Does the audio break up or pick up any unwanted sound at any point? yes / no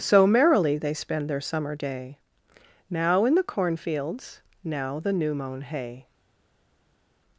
no